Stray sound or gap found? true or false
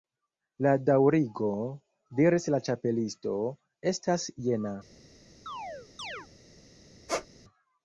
true